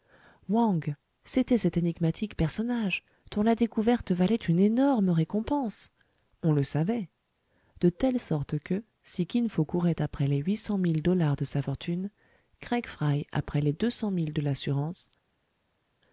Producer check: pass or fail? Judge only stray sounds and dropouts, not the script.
pass